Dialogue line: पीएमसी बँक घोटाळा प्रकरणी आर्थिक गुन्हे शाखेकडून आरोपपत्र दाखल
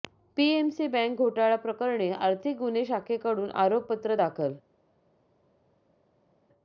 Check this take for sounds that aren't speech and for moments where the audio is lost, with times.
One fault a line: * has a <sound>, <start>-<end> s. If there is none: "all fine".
all fine